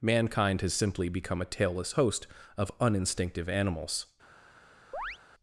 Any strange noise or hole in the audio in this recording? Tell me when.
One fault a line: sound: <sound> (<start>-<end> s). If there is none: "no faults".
sound: chirp (4.9-5.2 s)